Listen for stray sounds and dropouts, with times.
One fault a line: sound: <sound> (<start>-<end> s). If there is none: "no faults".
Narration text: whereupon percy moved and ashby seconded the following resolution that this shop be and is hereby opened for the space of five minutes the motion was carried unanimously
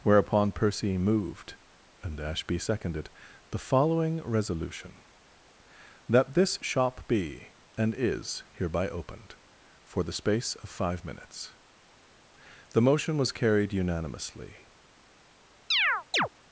sound: chirp (15.7-16.3 s)